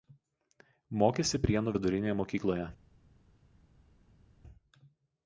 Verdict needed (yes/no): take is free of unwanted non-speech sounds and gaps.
yes